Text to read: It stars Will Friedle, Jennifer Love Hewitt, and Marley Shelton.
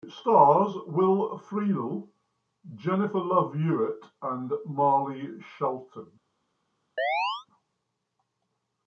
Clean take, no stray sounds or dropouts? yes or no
no